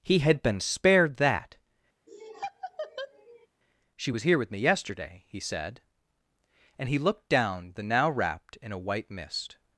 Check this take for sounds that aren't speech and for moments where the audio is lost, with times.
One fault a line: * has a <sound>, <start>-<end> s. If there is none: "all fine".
* has a laugh, 2.1-3.5 s